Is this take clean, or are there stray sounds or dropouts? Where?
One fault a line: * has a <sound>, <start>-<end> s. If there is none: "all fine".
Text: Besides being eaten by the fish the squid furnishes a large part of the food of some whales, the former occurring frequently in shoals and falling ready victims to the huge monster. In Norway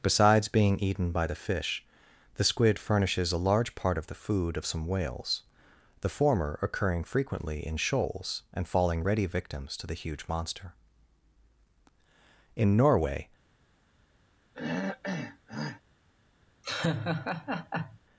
* has a throat clearing, 14.5-15.8 s
* has a laugh, 16.6-18.0 s